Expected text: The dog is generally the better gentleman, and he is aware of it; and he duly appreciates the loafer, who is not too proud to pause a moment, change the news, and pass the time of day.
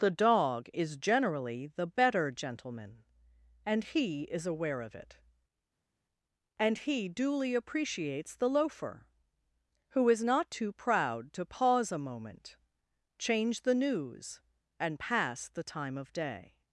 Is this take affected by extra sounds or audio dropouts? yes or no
no